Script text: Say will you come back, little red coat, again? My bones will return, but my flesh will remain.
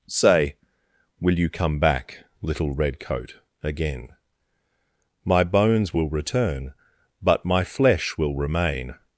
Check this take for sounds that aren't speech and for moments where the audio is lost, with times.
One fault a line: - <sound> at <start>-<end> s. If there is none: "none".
none